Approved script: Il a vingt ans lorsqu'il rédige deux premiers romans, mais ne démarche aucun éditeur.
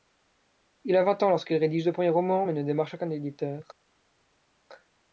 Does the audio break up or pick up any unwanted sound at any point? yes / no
no